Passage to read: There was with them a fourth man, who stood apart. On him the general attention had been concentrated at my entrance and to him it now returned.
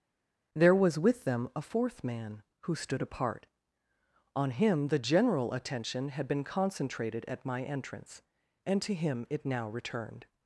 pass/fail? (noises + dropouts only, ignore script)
pass